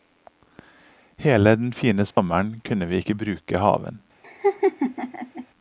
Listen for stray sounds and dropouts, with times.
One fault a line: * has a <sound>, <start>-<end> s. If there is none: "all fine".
* has a dropout, 2.1-2.2 s
* has a laugh, 4.2-5.5 s